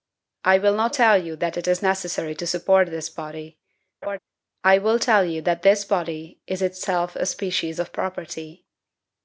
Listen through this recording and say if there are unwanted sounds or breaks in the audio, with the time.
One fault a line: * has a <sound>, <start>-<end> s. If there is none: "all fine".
* has a laugh, 4.0-4.2 s